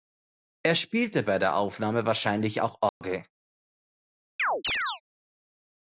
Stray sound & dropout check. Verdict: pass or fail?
fail